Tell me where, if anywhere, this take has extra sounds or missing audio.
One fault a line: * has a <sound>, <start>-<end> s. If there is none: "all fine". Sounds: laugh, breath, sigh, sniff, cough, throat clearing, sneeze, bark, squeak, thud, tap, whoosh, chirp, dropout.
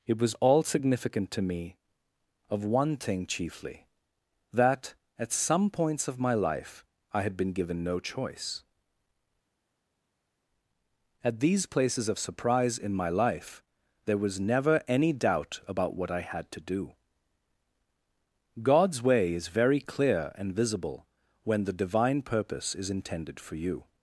all fine